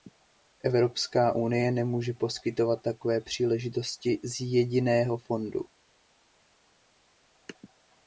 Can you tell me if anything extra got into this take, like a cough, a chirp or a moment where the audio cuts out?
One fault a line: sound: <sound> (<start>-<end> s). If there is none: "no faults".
no faults